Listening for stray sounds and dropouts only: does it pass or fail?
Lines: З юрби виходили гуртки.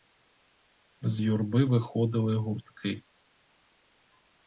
pass